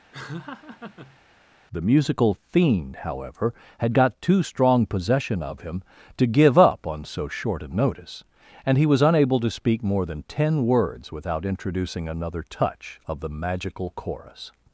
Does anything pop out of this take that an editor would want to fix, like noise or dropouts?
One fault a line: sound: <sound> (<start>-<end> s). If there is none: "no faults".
sound: laugh (0.1-1.2 s)